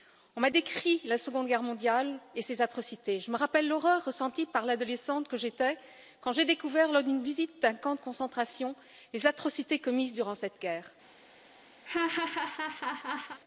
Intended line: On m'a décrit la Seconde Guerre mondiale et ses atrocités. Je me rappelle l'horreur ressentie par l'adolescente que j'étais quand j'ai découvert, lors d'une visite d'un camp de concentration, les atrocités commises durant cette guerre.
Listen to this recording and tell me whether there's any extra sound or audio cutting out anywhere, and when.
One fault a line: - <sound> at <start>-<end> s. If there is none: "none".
- laugh at 11.8-13.4 s